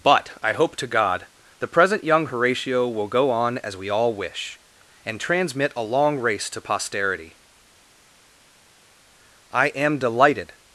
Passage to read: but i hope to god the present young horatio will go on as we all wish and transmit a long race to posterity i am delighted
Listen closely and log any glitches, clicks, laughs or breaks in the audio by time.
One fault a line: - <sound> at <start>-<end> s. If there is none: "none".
none